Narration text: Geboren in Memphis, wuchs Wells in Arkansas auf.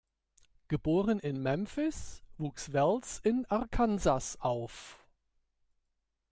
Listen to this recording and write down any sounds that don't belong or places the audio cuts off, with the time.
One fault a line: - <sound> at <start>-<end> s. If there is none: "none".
none